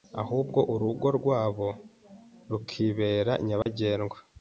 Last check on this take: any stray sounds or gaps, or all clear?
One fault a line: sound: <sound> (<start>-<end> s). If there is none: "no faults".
sound: dropout (3.6-3.7 s)